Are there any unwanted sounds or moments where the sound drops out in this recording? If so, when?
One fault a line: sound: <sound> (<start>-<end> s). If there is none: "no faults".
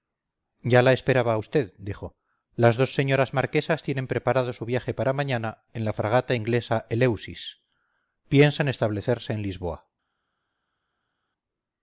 no faults